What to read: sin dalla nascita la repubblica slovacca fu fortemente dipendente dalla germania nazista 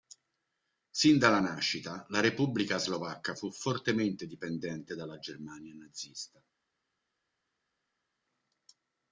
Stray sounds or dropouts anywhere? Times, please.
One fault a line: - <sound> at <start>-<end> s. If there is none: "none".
none